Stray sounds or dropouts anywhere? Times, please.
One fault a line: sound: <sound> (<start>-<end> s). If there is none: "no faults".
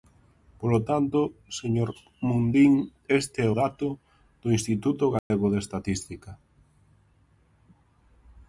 sound: dropout (5.2-5.3 s)